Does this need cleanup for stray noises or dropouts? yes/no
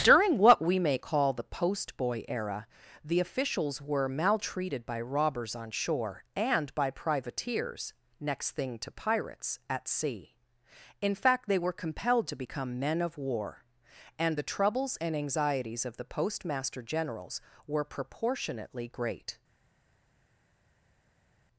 no